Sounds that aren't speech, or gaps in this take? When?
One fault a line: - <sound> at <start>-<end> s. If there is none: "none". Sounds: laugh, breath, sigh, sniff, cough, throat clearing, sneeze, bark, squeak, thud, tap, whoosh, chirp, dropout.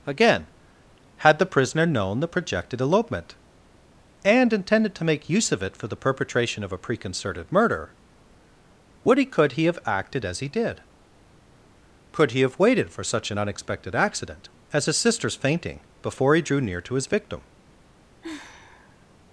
- sigh at 18.2-19.1 s